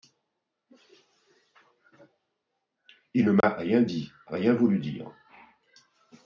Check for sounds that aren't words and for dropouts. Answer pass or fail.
fail